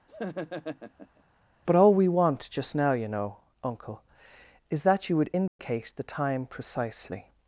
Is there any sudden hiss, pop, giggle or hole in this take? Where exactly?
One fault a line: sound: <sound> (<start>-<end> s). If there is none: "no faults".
sound: laugh (0.1-1.2 s)
sound: dropout (5.5-5.6 s)